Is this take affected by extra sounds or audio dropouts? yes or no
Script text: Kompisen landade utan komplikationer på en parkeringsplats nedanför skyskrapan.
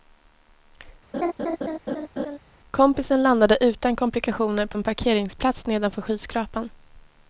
yes